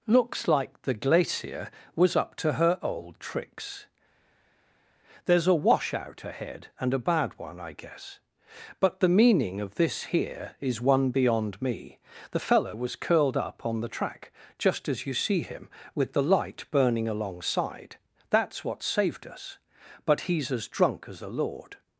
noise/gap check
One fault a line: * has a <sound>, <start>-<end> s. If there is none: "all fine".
all fine